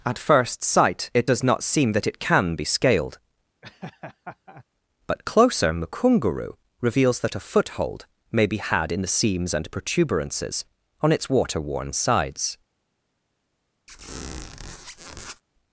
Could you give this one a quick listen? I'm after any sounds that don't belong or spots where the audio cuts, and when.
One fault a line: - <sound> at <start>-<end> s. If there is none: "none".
- laugh at 3.6-4.6 s
- squeak at 13.9-15.4 s